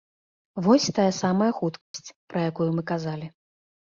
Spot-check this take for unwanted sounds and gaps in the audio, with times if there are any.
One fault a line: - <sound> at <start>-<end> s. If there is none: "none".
- dropout at 1.8-1.9 s